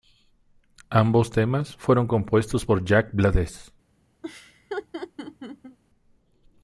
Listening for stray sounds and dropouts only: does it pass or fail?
fail